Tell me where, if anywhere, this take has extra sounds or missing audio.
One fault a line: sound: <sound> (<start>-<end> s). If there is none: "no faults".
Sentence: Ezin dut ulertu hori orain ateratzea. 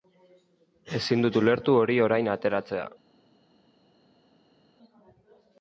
no faults